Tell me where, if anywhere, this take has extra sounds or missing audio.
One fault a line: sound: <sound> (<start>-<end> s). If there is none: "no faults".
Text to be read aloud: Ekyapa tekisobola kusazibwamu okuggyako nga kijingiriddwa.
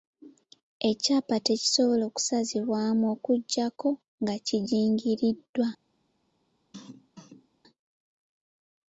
sound: cough (6.7-7.5 s)